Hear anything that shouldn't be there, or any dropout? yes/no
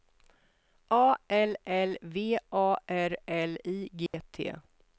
yes